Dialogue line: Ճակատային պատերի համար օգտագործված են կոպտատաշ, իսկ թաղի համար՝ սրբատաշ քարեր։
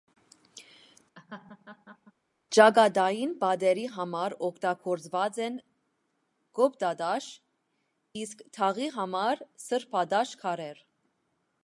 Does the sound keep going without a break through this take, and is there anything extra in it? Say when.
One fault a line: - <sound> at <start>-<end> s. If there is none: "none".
- laugh at 1.2-2.1 s